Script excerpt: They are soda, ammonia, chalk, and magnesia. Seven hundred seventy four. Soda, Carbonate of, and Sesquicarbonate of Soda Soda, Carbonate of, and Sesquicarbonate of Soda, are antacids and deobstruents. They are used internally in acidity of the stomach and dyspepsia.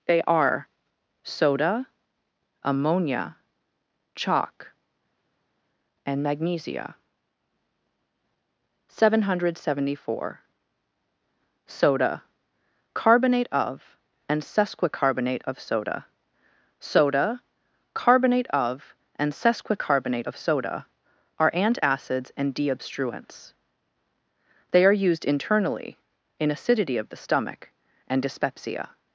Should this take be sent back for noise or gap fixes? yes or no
no